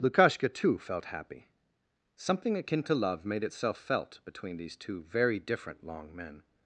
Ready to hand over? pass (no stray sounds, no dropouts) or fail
pass